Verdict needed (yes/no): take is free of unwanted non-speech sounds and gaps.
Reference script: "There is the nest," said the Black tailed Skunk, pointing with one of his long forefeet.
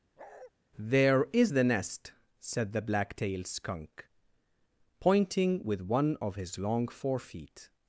no